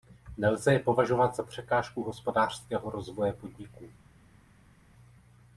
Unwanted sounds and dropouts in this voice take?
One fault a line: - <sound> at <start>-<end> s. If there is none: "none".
none